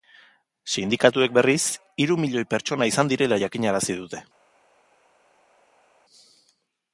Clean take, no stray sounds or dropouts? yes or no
yes